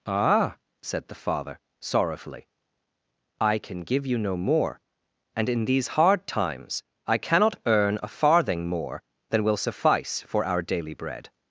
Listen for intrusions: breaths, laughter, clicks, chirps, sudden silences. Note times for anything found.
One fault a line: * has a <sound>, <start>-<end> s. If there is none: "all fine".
all fine